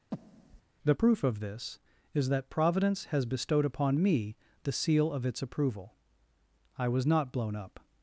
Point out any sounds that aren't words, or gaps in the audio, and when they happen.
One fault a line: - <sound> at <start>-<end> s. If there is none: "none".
- breath at 0.1-0.6 s